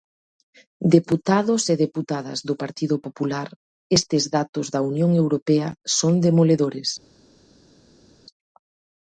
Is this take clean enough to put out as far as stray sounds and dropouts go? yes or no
yes